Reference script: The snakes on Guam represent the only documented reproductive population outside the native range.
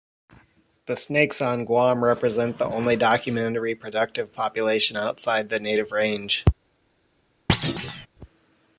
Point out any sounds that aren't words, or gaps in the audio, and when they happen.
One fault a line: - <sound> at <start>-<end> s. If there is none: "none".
- thud at 7.5-8.1 s